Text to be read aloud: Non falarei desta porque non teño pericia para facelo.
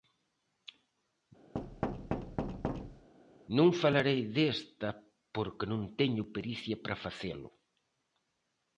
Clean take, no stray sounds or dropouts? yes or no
no